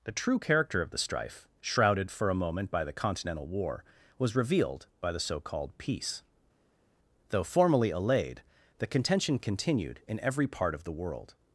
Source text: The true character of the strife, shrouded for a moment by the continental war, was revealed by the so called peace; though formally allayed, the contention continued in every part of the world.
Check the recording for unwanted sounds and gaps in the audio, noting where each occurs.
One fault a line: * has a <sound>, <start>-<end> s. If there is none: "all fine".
all fine